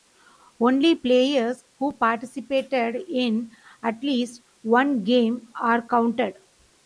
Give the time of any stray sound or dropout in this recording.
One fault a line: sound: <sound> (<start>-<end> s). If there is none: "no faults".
no faults